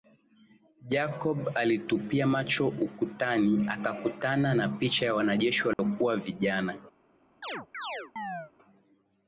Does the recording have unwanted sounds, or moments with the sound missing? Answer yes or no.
yes